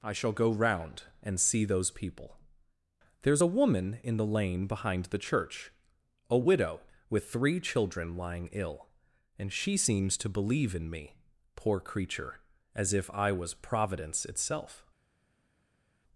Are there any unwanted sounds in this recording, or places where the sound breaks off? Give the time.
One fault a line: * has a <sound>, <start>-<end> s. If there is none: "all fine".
all fine